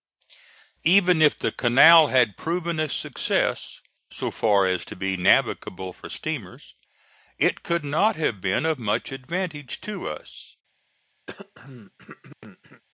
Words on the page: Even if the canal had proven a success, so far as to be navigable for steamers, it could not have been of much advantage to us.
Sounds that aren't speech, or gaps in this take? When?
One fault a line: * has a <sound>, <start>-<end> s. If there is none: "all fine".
* has a throat clearing, 11.3-12.8 s